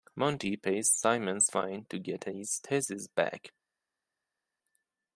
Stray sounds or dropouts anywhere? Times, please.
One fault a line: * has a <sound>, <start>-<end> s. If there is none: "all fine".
all fine